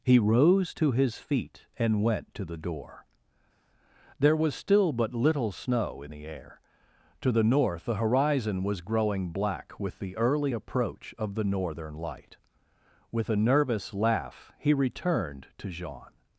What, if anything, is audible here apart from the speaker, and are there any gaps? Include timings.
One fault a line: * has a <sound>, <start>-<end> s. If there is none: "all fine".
all fine